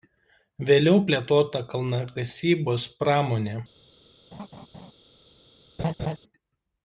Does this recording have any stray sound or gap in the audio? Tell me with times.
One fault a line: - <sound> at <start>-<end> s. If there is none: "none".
- laugh at 4.3-4.9 s
- laugh at 5.8-6.2 s